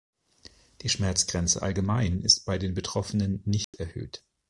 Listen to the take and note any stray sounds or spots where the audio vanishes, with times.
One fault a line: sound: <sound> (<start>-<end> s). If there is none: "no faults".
sound: dropout (3.6-3.7 s)